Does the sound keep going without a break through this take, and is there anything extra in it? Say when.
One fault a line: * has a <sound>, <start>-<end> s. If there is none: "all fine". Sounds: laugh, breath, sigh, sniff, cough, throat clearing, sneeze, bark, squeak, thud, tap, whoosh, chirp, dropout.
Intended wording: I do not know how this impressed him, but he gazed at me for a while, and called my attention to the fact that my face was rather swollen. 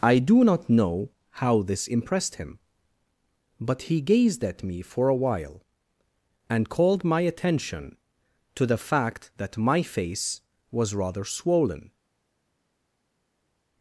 all fine